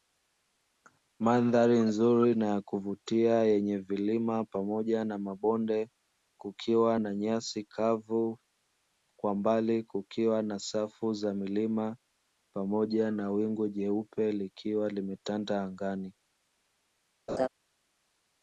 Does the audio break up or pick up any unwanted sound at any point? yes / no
yes